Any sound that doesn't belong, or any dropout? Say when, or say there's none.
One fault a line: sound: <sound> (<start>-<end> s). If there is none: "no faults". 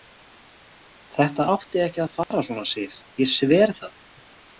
sound: dropout (2.2-2.3 s)